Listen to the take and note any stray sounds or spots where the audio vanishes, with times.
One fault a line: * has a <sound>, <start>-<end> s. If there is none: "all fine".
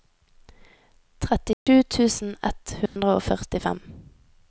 * has a dropout, 1.5-1.7 s
* has a dropout, 2.9-3.0 s